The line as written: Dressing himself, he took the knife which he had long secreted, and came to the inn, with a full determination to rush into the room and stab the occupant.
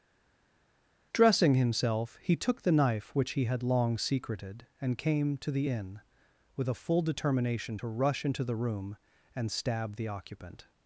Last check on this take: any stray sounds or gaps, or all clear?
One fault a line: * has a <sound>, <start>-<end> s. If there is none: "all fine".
all fine